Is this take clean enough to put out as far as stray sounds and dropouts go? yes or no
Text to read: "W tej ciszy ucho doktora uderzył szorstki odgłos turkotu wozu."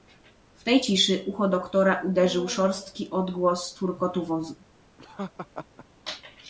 no